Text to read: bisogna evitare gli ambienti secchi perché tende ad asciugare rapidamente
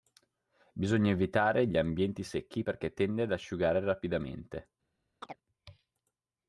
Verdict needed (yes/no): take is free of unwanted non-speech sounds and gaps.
no